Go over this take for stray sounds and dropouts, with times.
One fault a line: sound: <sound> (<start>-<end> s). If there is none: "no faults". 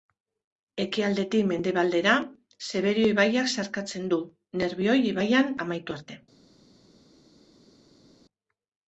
no faults